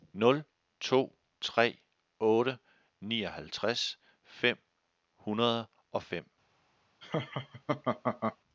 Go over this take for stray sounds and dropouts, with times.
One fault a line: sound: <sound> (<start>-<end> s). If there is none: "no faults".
sound: laugh (7.0-8.4 s)